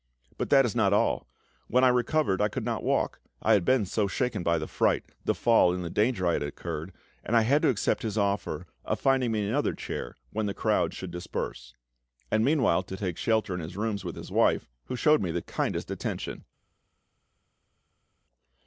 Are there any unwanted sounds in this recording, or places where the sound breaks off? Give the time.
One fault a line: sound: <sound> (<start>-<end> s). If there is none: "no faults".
no faults